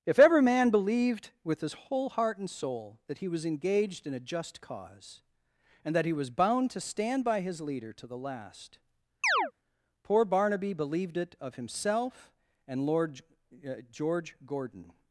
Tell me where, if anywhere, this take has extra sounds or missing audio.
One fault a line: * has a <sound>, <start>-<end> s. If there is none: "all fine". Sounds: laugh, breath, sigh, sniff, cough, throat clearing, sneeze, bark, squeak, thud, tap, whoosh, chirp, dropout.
* has a chirp, 9.2-9.5 s